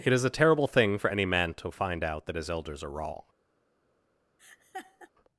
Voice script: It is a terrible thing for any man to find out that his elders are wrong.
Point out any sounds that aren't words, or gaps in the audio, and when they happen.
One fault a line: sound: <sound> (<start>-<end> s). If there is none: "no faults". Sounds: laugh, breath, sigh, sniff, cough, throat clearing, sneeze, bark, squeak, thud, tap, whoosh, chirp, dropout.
sound: laugh (4.4-5.1 s)